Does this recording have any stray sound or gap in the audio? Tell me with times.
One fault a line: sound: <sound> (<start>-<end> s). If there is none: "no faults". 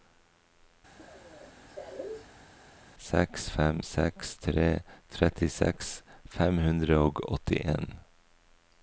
sound: cough (1.0-2.5 s)